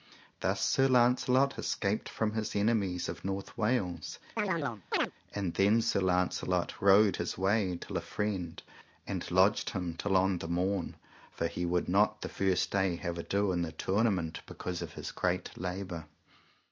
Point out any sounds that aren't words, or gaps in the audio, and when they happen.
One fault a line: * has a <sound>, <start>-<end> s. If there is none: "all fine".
* has a chirp, 4.4-5.1 s